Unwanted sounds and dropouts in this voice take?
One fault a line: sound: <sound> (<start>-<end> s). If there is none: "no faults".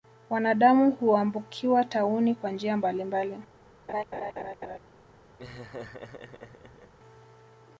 sound: laugh (3.9-4.8 s)
sound: laugh (5.4-6.9 s)